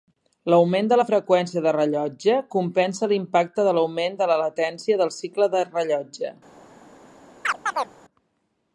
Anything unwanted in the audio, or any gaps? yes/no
yes